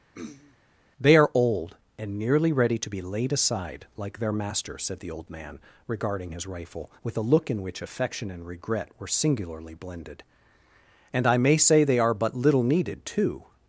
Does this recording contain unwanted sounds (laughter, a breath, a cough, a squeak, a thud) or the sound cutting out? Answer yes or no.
yes